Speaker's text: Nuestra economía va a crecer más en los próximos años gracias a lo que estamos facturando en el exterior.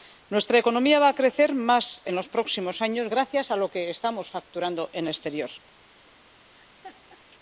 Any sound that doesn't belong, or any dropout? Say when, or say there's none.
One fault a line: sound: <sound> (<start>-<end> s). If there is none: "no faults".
sound: laugh (6.5-7.2 s)